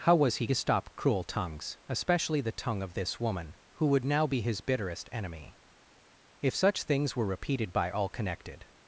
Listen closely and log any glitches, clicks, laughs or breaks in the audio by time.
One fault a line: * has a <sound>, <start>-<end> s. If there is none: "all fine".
all fine